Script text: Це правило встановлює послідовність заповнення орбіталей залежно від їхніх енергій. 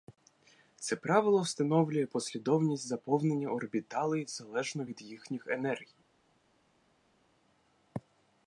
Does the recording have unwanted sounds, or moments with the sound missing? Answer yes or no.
no